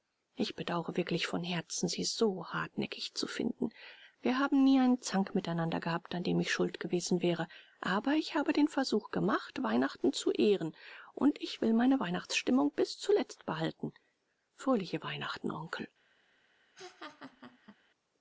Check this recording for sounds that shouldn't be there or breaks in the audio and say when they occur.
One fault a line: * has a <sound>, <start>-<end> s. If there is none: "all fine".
* has a laugh, 16.7-17.8 s